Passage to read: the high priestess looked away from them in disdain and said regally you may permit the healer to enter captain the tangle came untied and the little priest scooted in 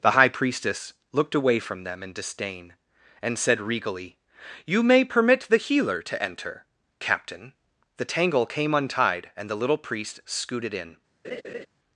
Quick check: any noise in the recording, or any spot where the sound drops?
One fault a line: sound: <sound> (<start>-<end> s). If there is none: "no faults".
sound: laugh (11.2-11.7 s)